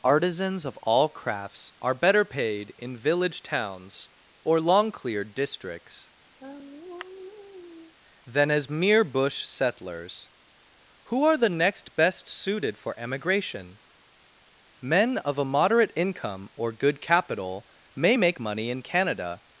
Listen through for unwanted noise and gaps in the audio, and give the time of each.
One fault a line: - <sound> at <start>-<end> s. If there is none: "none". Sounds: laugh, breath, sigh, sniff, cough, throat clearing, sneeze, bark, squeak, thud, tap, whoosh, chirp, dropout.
- sigh at 6.4-7.9 s